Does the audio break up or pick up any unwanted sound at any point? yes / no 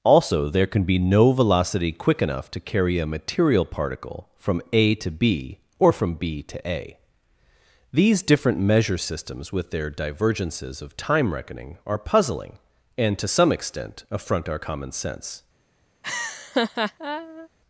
yes